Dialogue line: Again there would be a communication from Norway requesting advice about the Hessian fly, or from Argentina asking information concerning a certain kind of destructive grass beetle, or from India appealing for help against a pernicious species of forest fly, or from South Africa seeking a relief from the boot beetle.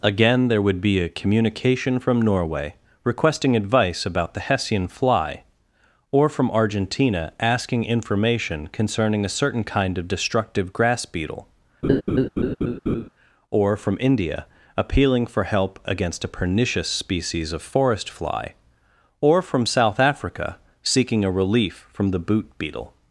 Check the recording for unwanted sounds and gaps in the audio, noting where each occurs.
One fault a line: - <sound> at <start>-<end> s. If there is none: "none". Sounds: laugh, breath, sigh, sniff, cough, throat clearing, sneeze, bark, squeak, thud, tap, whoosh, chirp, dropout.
- laugh at 11.8-13.1 s